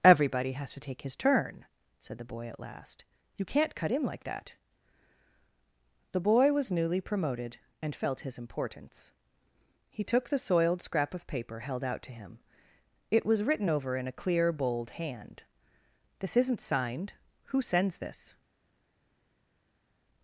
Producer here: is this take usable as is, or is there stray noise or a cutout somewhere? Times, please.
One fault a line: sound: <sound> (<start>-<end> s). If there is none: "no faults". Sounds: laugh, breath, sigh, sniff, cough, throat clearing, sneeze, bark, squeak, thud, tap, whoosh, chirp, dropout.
no faults